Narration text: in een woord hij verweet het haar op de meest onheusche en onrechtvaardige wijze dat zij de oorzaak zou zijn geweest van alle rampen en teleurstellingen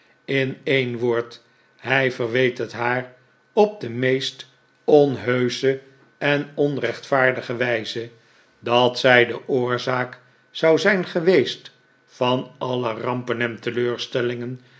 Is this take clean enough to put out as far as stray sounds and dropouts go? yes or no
yes